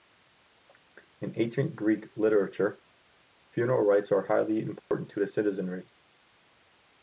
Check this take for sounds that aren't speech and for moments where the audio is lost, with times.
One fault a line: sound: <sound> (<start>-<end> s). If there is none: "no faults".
sound: dropout (4.8-4.9 s)